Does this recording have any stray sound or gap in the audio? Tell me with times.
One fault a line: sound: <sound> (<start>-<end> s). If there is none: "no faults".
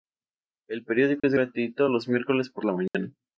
sound: dropout (1.2-1.2 s)
sound: dropout (2.9-2.9 s)